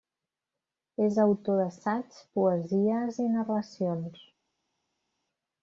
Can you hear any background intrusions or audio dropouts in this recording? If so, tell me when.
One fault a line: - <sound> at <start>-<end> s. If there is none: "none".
none